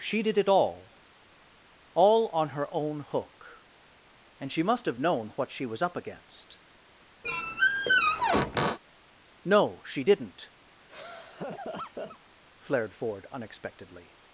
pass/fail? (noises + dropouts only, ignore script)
fail